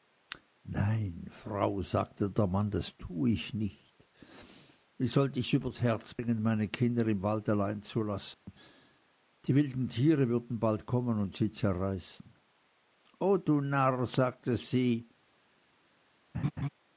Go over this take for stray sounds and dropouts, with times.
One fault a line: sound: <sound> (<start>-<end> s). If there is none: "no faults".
sound: dropout (8.3-8.5 s)
sound: laugh (16.3-16.7 s)